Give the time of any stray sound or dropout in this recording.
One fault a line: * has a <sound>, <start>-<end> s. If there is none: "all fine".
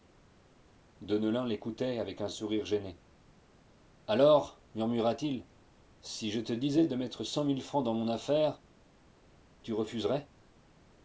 all fine